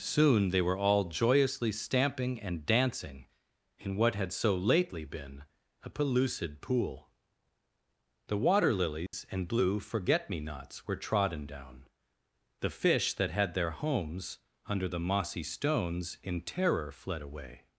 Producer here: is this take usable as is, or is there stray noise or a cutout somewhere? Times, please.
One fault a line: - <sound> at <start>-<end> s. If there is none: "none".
- dropout at 9.1-9.1 s